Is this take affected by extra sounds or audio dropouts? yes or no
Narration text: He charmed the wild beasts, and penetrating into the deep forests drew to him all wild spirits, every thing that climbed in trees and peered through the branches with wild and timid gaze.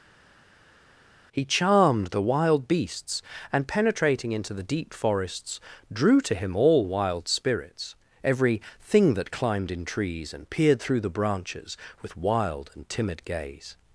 no